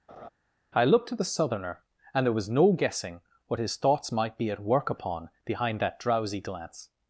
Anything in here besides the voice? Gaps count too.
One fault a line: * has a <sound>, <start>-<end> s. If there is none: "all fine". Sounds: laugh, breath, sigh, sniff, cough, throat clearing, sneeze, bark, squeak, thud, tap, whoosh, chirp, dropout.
* has a laugh, 0.1-0.3 s